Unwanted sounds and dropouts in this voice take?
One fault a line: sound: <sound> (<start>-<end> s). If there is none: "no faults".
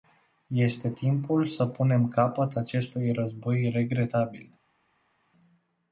no faults